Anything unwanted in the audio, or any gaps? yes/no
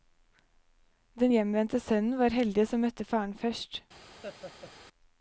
yes